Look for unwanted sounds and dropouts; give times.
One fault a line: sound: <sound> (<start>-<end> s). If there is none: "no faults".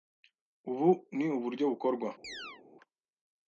sound: chirp (2.2-2.6 s)